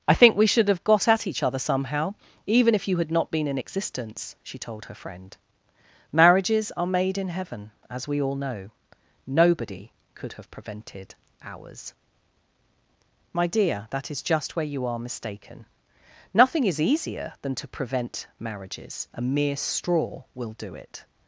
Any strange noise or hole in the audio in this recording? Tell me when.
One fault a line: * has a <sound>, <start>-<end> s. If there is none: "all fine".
all fine